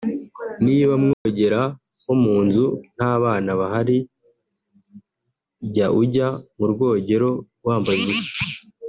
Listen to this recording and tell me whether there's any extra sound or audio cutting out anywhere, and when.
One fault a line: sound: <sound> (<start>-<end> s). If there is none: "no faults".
sound: dropout (1.1-1.3 s)